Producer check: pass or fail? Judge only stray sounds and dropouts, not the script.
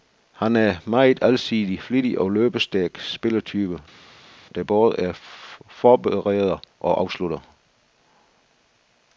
pass